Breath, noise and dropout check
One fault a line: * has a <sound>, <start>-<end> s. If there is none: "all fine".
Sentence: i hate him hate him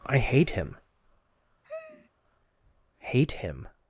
* has a sigh, 1.6-2.1 s